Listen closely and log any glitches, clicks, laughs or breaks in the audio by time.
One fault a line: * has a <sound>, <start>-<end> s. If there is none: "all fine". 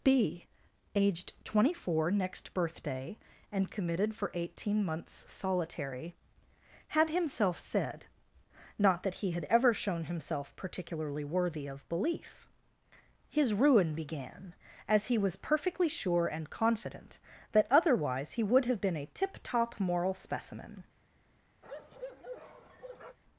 * has a bark, 21.6-23.2 s